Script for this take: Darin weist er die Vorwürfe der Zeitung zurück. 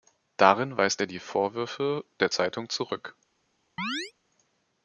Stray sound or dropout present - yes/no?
yes